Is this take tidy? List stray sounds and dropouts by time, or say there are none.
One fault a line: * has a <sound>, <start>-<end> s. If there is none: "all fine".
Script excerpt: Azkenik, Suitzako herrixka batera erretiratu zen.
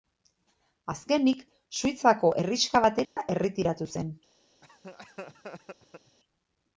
* has a dropout, 3.0-3.2 s
* has a laugh, 4.6-6.2 s